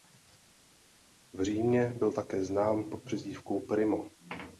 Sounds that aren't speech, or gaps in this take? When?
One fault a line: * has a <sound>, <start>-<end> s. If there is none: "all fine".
all fine